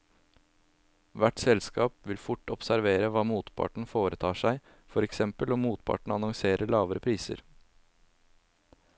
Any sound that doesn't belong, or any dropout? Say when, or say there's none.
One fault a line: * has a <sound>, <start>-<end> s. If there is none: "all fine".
all fine